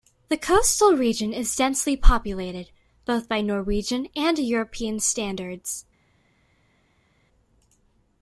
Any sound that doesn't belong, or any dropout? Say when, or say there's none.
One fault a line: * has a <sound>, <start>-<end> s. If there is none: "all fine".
all fine